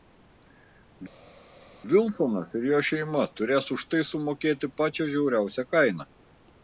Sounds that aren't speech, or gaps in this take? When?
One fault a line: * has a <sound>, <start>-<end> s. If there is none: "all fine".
all fine